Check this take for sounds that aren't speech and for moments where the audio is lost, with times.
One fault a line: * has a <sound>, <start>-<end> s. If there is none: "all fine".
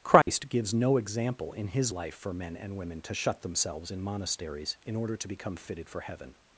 * has a dropout, 0.2-0.3 s